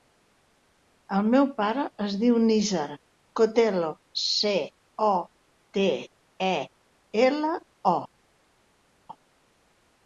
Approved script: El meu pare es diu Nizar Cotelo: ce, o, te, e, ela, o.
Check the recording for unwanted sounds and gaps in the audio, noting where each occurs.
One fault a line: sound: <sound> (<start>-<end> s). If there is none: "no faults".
no faults